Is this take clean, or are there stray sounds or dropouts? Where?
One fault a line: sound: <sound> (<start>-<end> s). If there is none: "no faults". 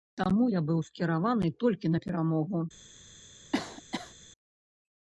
sound: cough (3.5-4.1 s)